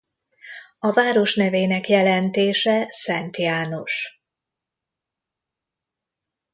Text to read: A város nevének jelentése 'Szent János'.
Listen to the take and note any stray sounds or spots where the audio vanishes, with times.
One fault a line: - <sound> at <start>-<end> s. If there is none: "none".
none